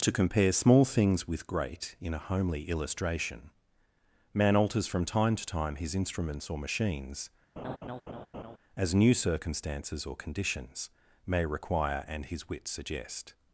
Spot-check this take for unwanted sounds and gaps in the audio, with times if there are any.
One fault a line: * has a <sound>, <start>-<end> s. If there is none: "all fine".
* has a laugh, 7.6-8.6 s